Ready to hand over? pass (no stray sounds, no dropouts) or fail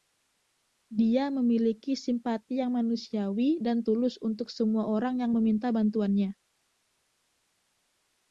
pass